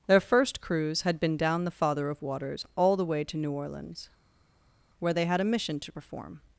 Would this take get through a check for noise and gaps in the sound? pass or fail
pass